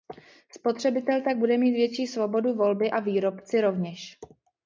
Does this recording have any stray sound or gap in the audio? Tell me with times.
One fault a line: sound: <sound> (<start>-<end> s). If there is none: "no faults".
no faults